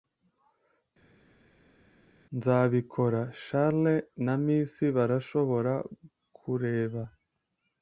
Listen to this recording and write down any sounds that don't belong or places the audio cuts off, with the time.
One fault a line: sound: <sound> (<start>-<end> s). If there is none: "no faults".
no faults